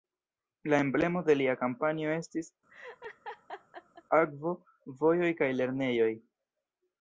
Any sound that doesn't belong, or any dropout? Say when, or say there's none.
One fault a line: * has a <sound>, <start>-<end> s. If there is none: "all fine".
* has a laugh, 2.7-4.0 s